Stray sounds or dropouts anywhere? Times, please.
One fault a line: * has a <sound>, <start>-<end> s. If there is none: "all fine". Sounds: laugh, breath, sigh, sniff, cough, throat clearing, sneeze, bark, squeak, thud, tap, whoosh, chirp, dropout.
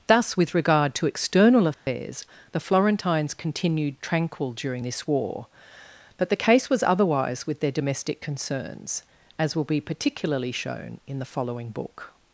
* has a dropout, 1.7-1.9 s